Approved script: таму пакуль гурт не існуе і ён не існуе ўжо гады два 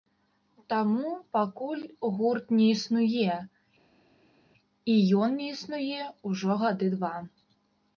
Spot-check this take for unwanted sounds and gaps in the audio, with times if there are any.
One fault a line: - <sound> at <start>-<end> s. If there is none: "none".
none